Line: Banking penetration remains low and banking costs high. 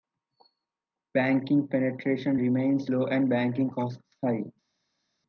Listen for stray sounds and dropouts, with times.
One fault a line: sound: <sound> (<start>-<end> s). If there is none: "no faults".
no faults